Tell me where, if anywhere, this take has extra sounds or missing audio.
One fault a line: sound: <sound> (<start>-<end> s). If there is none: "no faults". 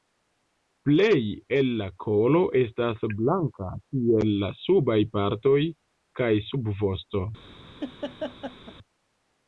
sound: laugh (7.8-8.7 s)